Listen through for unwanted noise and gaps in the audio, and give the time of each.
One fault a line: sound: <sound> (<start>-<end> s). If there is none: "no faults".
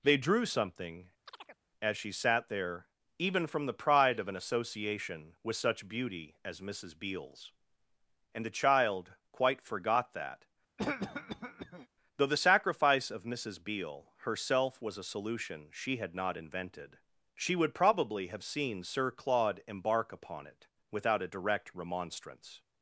sound: chirp (1.3-1.6 s)
sound: cough (10.8-11.9 s)